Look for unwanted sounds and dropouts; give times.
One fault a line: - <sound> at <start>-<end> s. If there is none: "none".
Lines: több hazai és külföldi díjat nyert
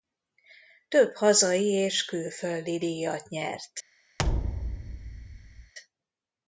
- thud at 4.2-5.7 s